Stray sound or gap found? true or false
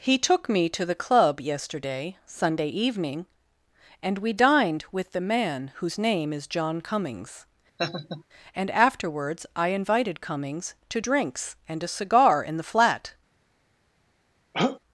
true